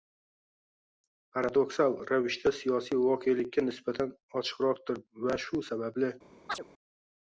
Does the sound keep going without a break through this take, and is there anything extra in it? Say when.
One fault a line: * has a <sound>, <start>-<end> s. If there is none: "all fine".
* has a chirp, 6.5-6.6 s